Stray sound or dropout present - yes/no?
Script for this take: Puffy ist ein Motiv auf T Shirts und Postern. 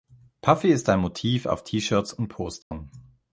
yes